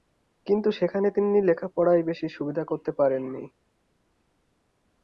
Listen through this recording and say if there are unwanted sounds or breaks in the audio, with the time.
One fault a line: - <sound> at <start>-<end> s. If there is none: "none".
none